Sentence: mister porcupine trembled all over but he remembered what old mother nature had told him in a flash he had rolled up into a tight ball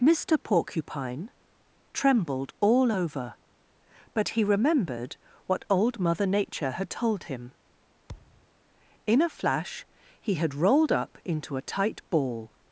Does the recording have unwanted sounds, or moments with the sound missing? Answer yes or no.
yes